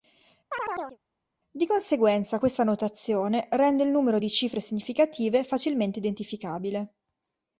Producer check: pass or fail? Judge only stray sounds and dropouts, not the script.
fail